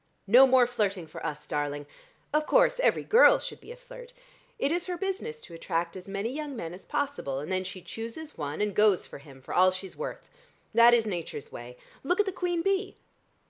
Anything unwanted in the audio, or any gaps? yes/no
no